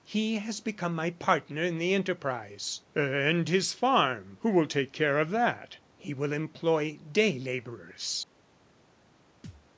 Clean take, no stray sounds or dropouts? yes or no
no